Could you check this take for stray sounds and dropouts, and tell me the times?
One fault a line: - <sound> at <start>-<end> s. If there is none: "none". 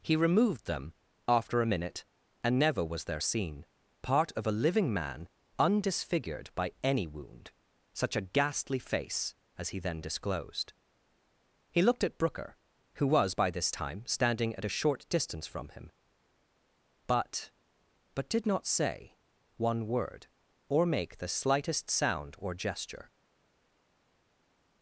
none